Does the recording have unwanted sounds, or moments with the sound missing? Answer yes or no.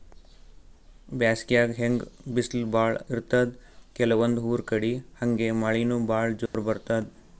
yes